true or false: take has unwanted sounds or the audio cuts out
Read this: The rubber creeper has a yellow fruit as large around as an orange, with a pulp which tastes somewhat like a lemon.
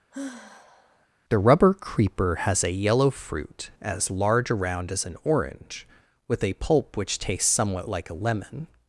true